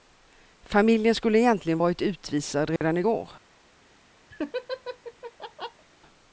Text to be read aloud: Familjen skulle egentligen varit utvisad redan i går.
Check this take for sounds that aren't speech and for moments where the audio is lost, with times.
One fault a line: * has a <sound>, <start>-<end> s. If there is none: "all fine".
* has a dropout, 2.8-2.8 s
* has a laugh, 4.3-5.9 s